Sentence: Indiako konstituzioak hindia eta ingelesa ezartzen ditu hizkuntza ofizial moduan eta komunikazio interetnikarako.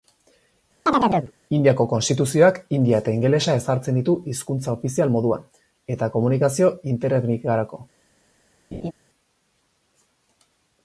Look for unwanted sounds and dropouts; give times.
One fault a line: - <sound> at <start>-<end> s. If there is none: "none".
- chirp at 0.9-1.3 s
- laugh at 8.7-8.9 s